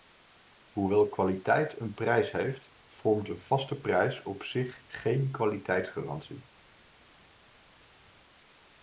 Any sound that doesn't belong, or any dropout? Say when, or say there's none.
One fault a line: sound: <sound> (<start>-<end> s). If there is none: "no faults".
no faults